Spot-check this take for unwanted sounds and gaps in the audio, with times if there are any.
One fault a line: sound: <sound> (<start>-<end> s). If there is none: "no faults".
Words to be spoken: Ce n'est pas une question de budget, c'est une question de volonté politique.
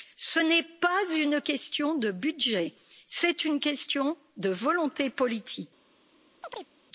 sound: chirp (6.4-6.7 s)